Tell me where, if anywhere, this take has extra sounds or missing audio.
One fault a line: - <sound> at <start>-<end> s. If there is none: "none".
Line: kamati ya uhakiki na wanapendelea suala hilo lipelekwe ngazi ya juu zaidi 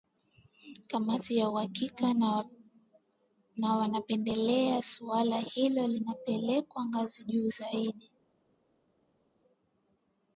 none